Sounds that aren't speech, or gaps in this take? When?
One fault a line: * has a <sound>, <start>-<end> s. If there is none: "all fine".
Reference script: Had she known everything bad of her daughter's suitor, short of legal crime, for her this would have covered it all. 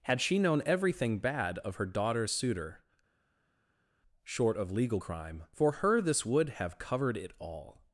all fine